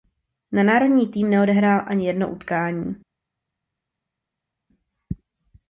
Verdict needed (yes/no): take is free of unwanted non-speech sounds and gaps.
yes